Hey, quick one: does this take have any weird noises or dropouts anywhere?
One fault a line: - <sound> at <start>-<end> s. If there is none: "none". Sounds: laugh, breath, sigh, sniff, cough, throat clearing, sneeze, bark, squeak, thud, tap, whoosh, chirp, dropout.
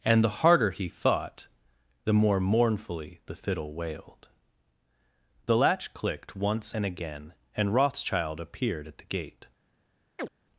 - chirp at 10.2-10.3 s